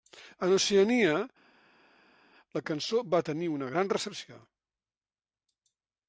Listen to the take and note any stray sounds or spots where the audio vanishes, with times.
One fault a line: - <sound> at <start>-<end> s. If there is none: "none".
none